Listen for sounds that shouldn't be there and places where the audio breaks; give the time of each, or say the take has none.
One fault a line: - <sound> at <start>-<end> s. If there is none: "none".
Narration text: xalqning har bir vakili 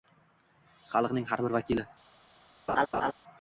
- laugh at 2.7-3.1 s